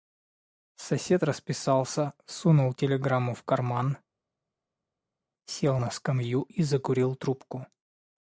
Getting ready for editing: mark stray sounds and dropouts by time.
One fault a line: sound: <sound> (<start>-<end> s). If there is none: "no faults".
no faults